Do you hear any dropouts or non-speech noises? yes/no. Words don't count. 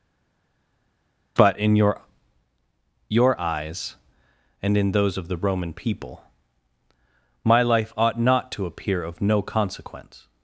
no